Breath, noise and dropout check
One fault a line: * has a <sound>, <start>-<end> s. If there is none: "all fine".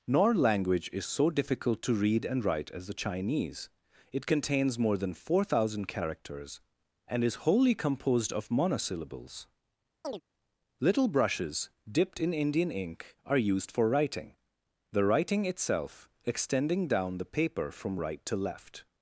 * has a chirp, 10.0-10.2 s